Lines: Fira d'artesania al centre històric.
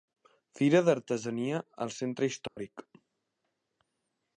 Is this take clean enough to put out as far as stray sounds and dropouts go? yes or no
no